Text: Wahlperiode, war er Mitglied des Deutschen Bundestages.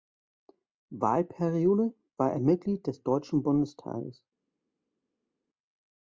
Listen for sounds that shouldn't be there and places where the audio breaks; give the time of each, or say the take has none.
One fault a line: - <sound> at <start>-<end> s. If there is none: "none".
none